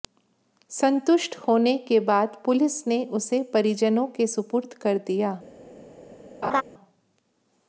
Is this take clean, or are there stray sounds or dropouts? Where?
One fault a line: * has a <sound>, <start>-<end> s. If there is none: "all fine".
* has a laugh, 6.4-6.6 s